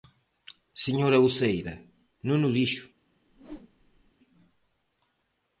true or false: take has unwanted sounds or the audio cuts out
true